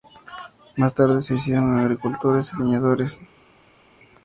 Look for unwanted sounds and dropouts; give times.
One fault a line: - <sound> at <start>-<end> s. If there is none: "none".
none